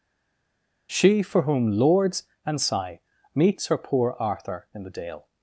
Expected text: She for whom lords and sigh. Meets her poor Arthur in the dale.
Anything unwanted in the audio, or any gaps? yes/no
no